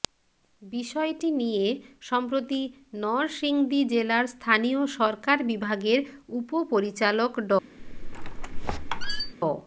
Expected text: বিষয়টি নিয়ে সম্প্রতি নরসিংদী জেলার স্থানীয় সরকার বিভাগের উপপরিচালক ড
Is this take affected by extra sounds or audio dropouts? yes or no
yes